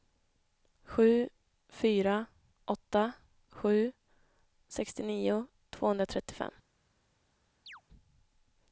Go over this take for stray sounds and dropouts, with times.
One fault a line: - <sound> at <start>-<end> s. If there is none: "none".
- chirp at 7.7-7.8 s